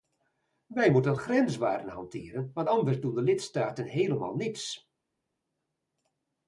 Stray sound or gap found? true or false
false